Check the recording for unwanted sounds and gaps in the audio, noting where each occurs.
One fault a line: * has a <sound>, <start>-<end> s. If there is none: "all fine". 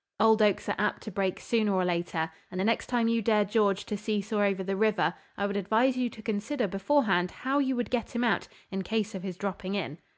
all fine